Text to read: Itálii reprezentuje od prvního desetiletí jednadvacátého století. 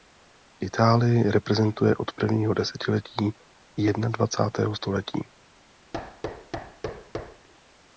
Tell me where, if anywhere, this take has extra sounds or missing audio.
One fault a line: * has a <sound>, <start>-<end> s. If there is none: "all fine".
* has a thud, 5.9-7.5 s